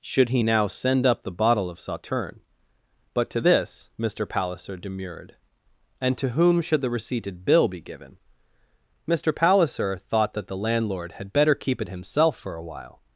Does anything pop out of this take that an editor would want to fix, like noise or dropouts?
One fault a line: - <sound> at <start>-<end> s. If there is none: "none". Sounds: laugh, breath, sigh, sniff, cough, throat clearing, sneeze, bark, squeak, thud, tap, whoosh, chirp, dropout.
none